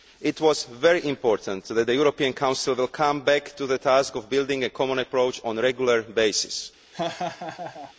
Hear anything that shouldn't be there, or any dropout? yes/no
yes